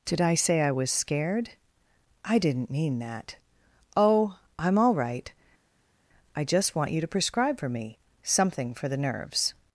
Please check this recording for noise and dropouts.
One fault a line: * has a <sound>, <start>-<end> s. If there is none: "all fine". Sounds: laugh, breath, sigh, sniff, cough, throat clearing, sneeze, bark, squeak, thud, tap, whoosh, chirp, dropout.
all fine